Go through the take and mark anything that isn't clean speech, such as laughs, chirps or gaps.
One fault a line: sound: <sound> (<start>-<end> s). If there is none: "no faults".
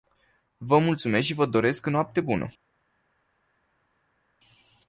no faults